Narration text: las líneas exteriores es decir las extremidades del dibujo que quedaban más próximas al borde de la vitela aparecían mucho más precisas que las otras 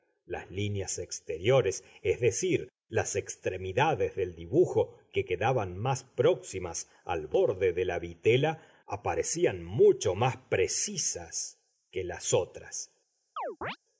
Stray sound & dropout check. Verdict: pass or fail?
fail